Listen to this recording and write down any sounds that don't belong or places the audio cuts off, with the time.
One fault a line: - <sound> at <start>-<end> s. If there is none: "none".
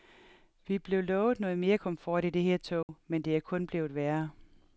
- dropout at 2.8-2.9 s